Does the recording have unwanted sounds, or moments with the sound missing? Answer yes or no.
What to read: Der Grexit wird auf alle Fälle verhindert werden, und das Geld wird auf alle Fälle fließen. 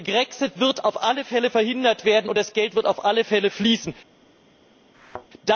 yes